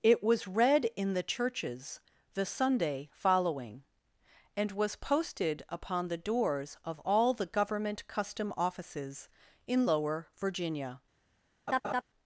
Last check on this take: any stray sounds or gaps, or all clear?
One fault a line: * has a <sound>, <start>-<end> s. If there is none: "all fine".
* has a laugh, 11.7-12.0 s